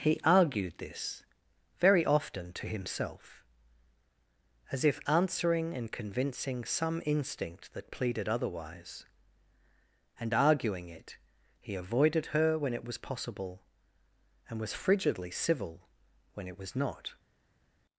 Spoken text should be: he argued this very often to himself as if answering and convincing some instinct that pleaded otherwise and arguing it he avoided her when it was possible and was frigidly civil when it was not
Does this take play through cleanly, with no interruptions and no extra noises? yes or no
yes